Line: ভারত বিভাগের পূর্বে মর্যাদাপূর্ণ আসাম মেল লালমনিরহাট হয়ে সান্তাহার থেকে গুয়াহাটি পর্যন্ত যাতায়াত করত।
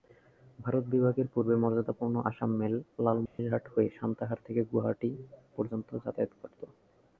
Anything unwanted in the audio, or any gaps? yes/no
yes